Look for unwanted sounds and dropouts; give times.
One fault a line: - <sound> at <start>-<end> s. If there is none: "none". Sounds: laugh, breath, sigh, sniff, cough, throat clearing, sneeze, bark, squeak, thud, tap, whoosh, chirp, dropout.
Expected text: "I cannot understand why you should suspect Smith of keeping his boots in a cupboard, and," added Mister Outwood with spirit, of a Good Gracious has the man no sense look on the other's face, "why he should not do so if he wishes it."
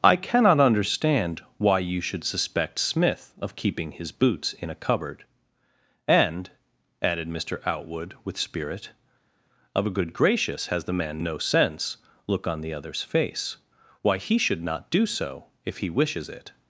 none